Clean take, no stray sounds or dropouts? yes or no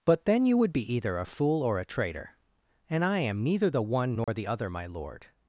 no